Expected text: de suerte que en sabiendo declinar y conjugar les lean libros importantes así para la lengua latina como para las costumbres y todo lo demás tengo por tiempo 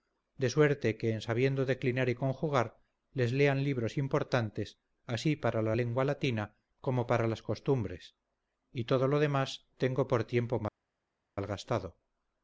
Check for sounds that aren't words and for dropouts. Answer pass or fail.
pass